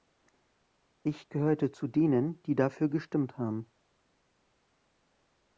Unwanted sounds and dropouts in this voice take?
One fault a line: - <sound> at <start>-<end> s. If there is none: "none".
none